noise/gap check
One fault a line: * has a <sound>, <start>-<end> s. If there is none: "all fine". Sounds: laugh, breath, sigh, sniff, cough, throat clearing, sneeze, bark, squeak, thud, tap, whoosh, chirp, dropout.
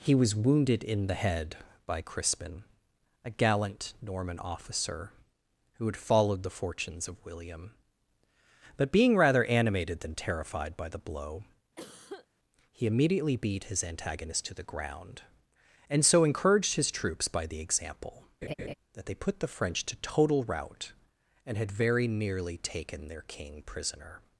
* has a cough, 11.8-12.3 s
* has a laugh, 18.4-18.7 s